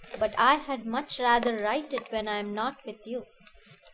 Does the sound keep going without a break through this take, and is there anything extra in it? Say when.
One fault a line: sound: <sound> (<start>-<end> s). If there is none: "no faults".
no faults